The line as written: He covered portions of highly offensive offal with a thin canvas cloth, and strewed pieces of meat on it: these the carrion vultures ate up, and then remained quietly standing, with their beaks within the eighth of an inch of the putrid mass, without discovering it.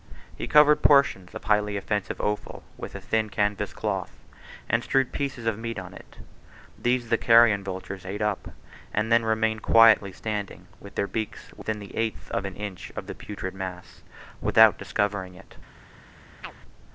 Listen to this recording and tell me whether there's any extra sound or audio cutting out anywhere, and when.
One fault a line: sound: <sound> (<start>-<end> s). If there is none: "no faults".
sound: chirp (16.4-16.5 s)